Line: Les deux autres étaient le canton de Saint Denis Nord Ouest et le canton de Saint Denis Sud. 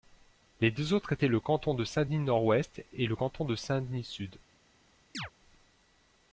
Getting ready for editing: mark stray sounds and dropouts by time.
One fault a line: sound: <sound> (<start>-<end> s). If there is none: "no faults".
sound: chirp (5.1-5.3 s)